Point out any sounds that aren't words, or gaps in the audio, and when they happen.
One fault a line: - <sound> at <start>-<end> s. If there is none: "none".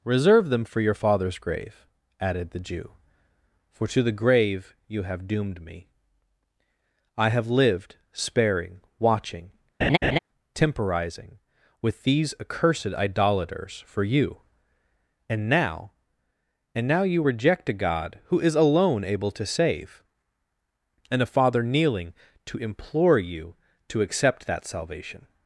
- laugh at 9.8-10.2 s